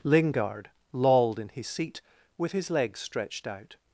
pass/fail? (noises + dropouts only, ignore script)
pass